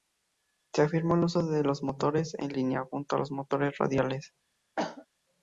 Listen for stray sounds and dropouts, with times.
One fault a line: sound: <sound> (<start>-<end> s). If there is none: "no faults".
sound: cough (4.8-5.1 s)